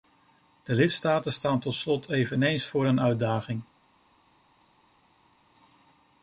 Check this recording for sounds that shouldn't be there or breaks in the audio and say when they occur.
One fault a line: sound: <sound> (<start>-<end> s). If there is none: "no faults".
no faults